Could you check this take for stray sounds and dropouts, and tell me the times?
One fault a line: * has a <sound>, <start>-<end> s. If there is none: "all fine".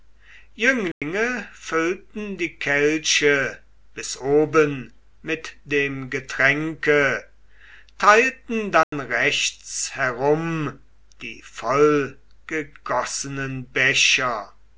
* has a dropout, 0.9-1.0 s
* has a dropout, 8.8-8.9 s